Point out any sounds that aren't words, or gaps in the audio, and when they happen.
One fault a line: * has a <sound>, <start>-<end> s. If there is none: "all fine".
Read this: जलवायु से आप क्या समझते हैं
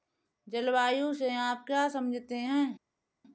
all fine